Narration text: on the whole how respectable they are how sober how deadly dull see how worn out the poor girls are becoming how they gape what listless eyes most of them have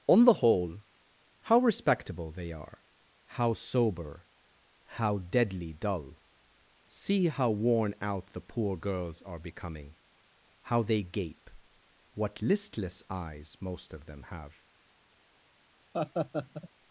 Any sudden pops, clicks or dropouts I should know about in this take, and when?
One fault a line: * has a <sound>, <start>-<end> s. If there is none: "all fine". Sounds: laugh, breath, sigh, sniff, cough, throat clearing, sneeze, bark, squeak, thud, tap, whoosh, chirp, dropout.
* has a laugh, 15.9-16.7 s